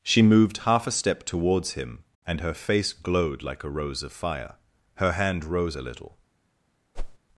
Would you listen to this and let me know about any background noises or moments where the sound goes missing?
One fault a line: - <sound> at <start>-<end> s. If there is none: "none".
- whoosh at 6.9-7.2 s